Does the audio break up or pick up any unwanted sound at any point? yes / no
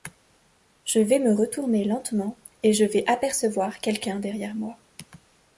no